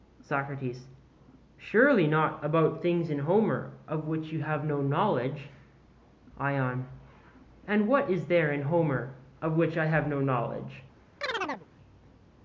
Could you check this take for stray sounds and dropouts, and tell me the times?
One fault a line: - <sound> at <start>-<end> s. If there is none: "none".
- chirp at 11.2-11.7 s